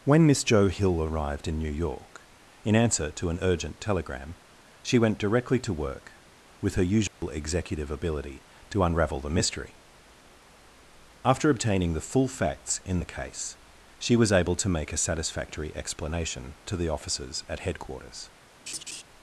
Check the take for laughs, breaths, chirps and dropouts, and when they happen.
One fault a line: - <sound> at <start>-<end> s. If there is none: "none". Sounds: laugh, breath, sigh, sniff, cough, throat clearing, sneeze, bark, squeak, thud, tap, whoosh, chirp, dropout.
- dropout at 7.1-7.2 s
- laugh at 18.7-19.0 s